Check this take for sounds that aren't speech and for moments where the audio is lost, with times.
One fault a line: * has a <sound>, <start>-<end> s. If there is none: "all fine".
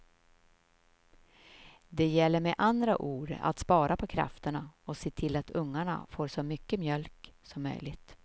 all fine